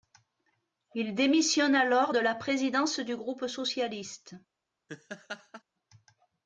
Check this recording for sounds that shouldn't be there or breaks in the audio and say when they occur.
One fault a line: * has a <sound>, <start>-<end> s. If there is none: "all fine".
* has a laugh, 4.9-5.6 s